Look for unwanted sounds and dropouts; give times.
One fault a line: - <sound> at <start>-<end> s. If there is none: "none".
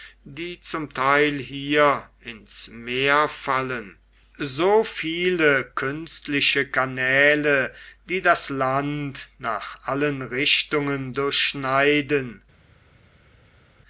none